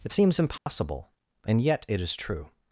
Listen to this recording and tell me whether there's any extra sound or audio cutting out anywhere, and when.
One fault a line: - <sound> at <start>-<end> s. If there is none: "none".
- dropout at 0.6-0.7 s